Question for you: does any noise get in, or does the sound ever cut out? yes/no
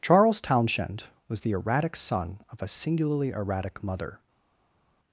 no